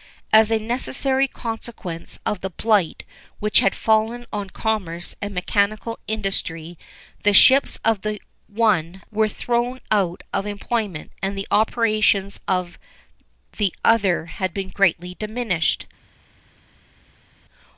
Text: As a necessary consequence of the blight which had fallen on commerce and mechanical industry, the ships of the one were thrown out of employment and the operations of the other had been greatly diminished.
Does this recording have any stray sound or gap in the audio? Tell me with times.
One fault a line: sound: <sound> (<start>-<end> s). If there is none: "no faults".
no faults